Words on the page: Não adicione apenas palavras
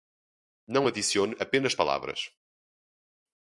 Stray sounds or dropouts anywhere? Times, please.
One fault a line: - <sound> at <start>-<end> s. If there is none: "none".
none